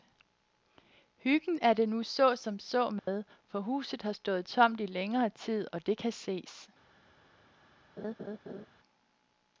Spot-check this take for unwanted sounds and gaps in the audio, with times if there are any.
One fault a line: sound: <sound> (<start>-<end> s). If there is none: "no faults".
sound: dropout (3.0-3.1 s)
sound: laugh (8.0-8.7 s)